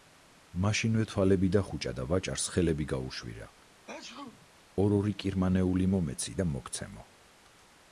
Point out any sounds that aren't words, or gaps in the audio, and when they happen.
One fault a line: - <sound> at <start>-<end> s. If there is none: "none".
- sneeze at 3.9-4.5 s